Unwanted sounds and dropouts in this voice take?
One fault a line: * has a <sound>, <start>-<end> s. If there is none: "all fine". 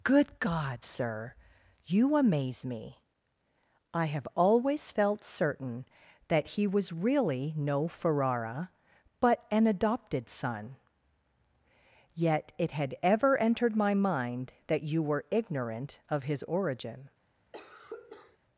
* has a cough, 17.5-18.4 s